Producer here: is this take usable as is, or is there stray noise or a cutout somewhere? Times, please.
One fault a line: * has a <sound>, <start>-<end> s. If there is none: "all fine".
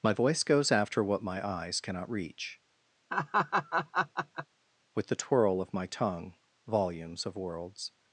* has a laugh, 3.1-4.5 s